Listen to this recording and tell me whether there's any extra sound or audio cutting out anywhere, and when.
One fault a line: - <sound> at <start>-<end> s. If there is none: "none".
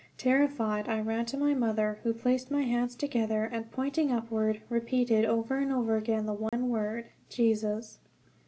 - dropout at 6.5-6.5 s